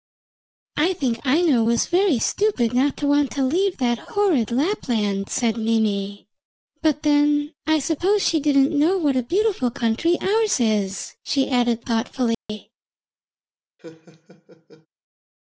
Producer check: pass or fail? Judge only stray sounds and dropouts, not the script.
fail